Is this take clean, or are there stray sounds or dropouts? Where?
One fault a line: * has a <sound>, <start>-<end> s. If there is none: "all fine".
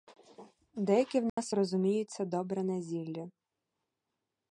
* has a dropout, 1.3-1.4 s